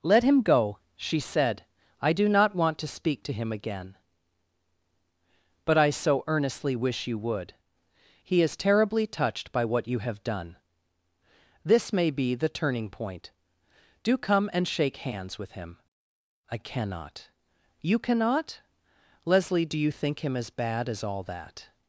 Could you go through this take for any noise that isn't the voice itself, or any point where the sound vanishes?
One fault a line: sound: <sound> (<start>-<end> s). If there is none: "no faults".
no faults